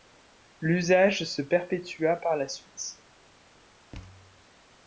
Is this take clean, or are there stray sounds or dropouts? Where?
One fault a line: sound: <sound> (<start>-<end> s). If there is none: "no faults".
sound: thud (3.9-4.5 s)